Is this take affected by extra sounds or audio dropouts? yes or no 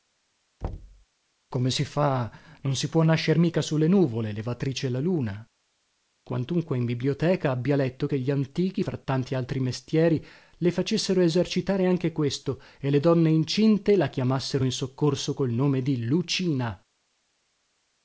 yes